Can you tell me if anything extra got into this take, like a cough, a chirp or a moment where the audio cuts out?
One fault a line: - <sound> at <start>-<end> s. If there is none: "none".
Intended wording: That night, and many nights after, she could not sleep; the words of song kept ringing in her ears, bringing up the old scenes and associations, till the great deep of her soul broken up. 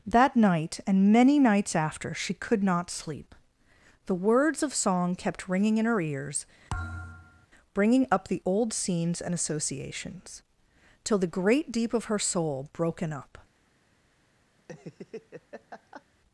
- thud at 6.7-7.5 s
- laugh at 14.6-16.0 s